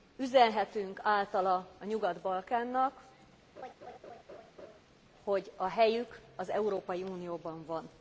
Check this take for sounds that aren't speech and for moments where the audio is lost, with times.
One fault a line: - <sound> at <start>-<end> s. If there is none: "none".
- laugh at 3.6-4.8 s